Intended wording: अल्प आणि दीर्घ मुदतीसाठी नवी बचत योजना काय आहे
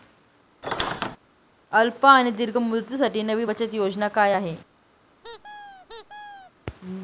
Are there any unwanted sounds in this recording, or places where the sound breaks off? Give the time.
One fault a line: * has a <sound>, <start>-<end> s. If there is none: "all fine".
* has a squeak, 0.6-1.2 s
* has a squeak, 5.2-6.5 s